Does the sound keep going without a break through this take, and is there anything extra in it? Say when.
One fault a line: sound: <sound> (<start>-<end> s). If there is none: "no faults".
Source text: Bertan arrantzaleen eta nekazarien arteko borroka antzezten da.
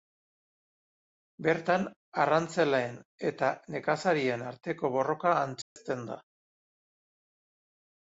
sound: dropout (5.6-5.8 s)